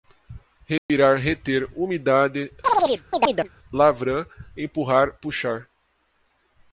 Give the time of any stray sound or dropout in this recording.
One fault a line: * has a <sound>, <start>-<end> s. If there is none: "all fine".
* has a dropout, 0.8-0.9 s
* has a chirp, 2.6-3.5 s